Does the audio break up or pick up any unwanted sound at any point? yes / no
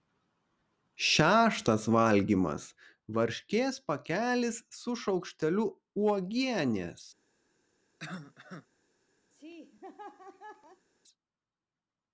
yes